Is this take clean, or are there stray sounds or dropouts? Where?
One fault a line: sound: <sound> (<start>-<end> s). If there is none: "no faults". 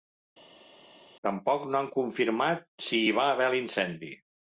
no faults